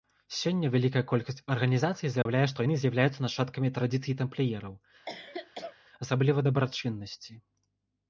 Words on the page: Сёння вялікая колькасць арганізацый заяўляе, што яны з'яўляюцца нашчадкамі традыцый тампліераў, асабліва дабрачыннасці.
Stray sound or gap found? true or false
true